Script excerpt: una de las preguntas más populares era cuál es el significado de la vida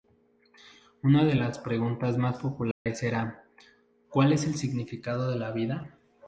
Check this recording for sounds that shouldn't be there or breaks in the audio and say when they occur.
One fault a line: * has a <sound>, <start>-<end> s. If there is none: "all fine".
* has a dropout, 2.7-2.9 s